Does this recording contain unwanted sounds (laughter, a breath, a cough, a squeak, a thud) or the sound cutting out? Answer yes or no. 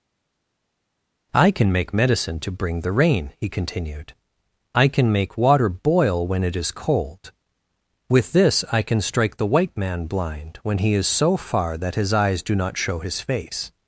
no